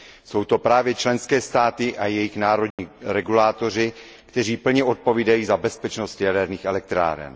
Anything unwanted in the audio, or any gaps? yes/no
yes